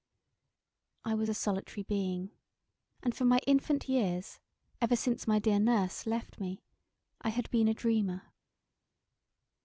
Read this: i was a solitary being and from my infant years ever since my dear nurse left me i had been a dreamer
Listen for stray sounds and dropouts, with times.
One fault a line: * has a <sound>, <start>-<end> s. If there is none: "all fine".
all fine